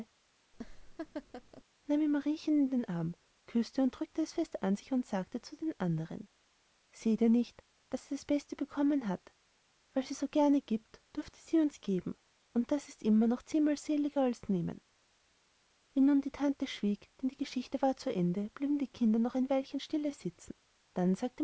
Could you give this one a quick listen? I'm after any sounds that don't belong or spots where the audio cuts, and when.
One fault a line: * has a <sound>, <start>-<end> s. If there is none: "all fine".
* has a laugh, 0.5-1.6 s